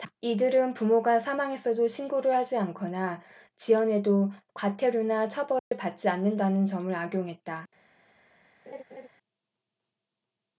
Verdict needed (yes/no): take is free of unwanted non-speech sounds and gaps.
no